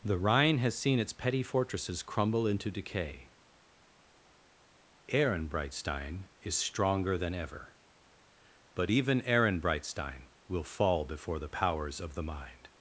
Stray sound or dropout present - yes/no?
no